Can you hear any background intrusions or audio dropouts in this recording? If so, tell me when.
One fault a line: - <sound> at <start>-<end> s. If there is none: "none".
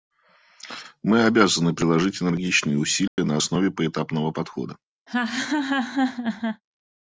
- dropout at 3.1-3.2 s
- laugh at 5.1-6.6 s